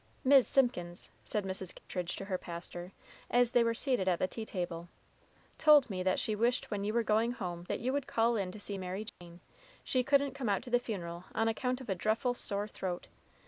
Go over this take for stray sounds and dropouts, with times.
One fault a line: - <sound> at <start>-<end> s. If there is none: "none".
- dropout at 1.8-1.9 s
- dropout at 9.1-9.2 s